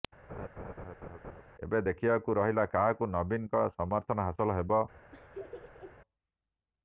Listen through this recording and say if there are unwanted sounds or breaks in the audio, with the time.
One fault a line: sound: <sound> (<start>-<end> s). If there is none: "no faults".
sound: laugh (0.3-1.4 s)
sound: laugh (5.1-6.0 s)